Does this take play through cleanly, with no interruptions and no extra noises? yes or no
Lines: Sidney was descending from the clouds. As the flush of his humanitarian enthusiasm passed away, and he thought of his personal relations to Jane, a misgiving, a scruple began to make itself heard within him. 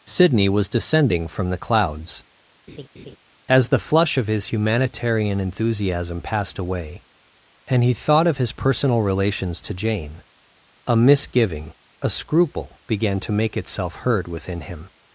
no